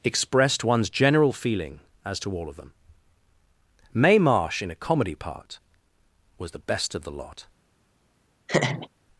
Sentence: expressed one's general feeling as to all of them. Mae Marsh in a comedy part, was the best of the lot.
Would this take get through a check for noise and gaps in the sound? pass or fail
fail